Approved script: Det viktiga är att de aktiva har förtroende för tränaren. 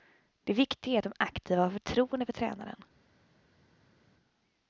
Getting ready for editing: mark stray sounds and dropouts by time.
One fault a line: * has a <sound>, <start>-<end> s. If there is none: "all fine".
all fine